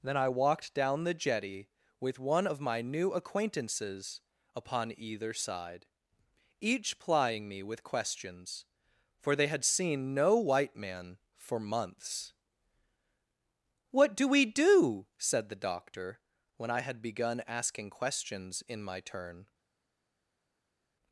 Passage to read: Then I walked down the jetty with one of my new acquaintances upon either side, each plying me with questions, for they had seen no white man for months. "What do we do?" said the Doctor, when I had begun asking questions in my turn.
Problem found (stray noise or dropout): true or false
false